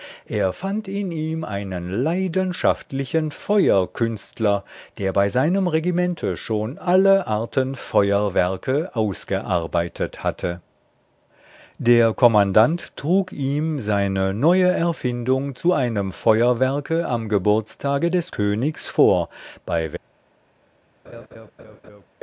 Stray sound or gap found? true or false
true